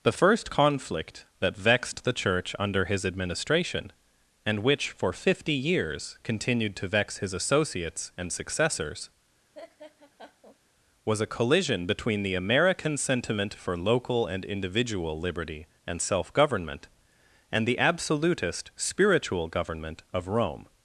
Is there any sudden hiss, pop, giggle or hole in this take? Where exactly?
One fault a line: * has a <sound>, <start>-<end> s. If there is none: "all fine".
* has a laugh, 9.5-10.6 s